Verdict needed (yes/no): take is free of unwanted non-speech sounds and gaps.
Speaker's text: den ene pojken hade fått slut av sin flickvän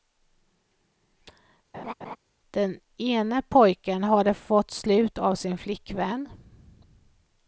no